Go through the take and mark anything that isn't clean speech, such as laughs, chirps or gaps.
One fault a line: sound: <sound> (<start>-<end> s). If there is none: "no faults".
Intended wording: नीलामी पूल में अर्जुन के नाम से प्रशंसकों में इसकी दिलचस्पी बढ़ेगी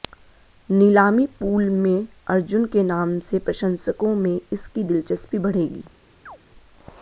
sound: chirp (6.3-6.4 s)